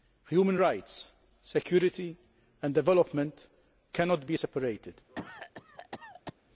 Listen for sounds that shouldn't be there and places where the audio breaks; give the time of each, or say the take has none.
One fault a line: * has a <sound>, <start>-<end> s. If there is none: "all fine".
* has a cough, 5.1-6.3 s